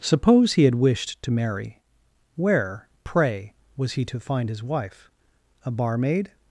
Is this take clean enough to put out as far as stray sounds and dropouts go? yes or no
yes